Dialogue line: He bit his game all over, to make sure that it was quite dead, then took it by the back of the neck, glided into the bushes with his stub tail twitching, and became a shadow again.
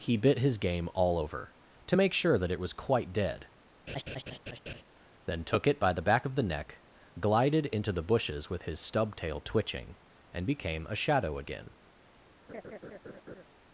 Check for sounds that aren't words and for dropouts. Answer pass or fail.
fail